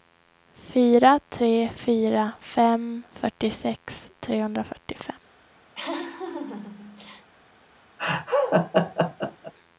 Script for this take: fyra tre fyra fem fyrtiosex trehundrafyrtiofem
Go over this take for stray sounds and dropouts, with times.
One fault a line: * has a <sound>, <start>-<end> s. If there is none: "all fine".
* has a laugh, 5.7-7.3 s
* has a laugh, 8.0-9.5 s